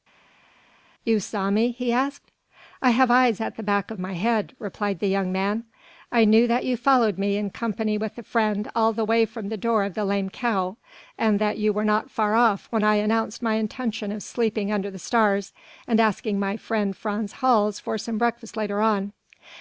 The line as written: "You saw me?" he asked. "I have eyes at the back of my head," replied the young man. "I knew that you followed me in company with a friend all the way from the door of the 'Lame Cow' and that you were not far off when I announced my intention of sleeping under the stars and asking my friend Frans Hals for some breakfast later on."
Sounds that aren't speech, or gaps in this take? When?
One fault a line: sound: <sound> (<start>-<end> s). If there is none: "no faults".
no faults